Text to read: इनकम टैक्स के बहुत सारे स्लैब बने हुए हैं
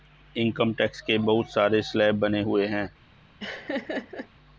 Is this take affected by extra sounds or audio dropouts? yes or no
yes